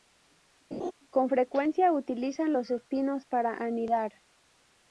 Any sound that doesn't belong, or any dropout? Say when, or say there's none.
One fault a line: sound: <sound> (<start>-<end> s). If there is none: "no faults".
sound: laugh (0.7-0.9 s)